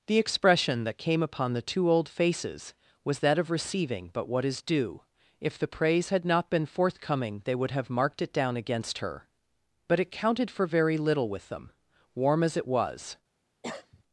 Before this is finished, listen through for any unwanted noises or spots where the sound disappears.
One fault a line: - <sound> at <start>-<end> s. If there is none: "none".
- cough at 13.6-14.0 s